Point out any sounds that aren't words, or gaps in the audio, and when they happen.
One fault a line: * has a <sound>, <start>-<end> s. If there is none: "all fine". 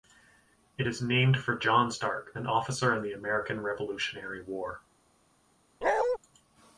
* has a bark, 5.8-6.2 s